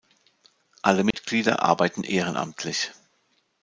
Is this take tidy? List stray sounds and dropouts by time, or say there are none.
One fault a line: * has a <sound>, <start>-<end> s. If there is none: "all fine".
* has a dropout, 1.1-1.1 s